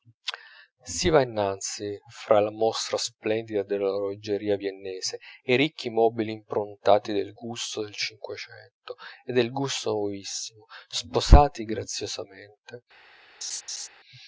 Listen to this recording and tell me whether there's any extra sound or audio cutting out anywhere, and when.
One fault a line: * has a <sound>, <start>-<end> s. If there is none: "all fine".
* has a laugh, 13.4-13.9 s